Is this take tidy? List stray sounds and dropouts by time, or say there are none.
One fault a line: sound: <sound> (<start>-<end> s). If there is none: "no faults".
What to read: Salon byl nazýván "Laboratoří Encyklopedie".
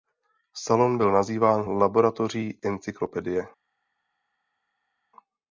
no faults